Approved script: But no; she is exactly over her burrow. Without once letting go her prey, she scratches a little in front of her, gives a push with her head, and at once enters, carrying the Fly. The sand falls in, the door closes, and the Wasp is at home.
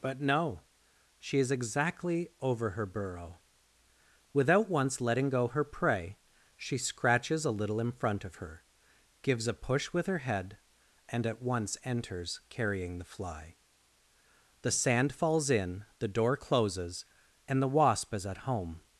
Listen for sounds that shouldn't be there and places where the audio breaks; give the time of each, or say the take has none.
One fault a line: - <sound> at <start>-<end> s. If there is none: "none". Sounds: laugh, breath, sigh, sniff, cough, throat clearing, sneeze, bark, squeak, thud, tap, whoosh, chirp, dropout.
none